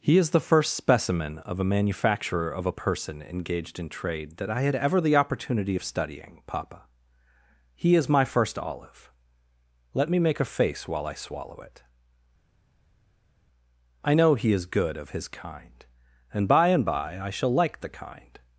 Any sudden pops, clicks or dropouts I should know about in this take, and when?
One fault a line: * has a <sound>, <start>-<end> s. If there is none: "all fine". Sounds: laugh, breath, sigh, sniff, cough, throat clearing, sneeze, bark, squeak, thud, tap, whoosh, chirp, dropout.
all fine